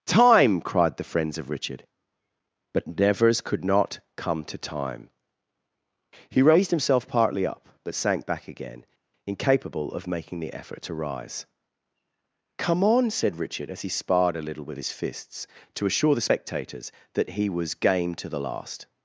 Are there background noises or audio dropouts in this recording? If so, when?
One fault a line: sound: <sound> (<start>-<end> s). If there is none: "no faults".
no faults